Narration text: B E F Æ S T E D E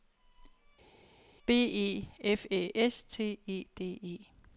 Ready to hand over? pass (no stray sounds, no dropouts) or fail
pass